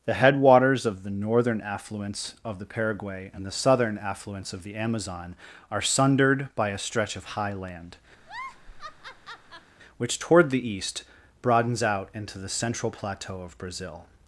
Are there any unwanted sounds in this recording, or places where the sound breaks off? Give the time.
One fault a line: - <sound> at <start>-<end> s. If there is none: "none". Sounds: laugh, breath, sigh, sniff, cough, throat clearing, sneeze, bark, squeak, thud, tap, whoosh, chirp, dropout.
- laugh at 8.2-9.7 s